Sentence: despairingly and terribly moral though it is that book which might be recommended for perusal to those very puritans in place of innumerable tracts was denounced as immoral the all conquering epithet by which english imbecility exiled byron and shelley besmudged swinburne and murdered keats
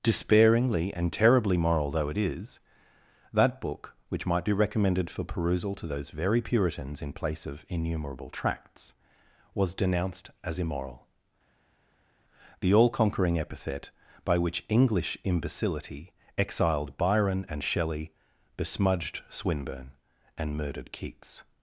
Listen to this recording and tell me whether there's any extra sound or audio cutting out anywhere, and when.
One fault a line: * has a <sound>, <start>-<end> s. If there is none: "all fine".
all fine